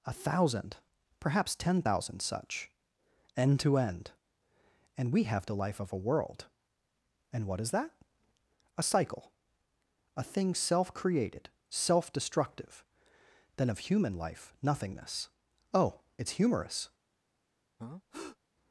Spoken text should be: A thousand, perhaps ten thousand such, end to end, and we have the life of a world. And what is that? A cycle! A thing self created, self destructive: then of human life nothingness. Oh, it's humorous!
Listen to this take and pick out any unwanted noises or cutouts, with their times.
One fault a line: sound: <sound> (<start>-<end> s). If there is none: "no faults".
sound: breath (17.8-18.4 s)